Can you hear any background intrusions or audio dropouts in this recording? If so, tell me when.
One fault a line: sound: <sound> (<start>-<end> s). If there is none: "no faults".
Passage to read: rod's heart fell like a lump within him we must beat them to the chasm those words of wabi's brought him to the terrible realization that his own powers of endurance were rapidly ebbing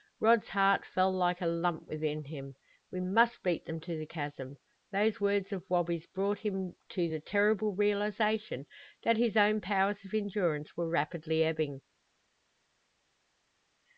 no faults